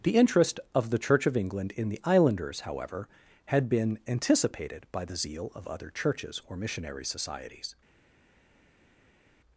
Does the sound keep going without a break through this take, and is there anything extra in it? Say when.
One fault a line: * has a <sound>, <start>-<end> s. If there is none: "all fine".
all fine